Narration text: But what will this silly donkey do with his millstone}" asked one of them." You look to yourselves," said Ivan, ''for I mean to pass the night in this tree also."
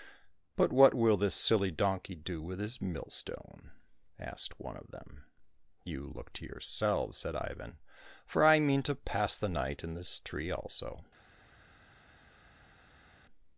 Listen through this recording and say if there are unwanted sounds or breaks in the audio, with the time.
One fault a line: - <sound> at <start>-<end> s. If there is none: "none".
none